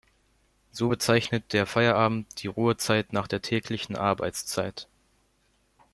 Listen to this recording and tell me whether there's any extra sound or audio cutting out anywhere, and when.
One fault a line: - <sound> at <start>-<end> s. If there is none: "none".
none